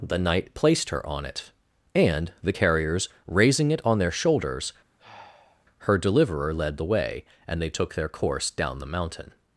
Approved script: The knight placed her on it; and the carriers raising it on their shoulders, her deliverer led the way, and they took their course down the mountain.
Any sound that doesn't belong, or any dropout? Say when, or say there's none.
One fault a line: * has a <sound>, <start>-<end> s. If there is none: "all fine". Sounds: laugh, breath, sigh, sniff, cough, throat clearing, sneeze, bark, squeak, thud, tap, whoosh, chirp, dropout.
* has a sigh, 5.0-5.7 s